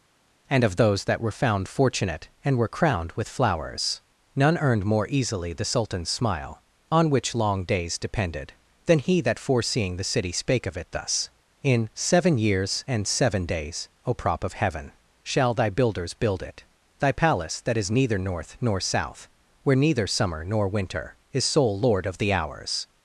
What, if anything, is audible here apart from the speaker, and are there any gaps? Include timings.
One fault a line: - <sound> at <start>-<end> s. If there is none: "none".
none